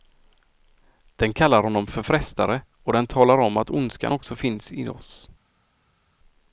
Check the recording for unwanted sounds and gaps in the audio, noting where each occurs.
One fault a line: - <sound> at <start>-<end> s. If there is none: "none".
none